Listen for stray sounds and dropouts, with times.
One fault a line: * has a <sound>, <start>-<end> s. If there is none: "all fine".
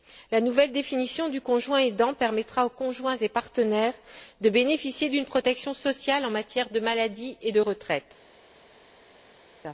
all fine